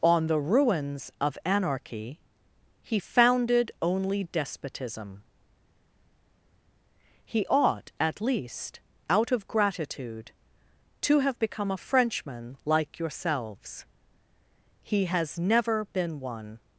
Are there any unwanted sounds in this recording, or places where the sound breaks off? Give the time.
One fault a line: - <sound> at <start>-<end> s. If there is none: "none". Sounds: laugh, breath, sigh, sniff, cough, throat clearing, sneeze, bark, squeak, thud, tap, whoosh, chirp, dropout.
none